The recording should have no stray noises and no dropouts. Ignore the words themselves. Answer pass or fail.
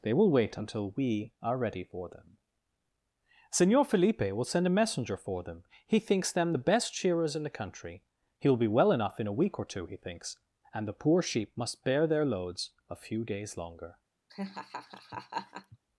fail